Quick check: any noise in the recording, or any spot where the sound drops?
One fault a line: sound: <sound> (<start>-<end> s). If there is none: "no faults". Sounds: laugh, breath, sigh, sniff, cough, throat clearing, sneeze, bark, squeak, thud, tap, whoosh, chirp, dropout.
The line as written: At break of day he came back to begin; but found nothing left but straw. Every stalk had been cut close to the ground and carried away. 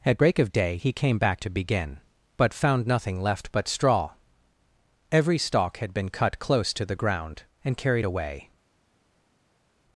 no faults